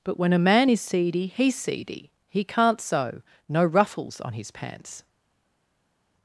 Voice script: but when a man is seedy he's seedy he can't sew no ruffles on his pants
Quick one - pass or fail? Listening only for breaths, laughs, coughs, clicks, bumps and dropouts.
pass